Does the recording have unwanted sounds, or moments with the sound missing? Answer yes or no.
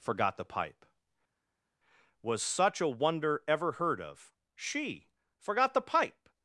no